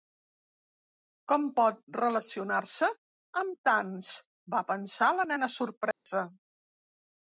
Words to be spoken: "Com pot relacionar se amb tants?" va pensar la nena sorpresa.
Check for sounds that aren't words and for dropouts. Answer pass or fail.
fail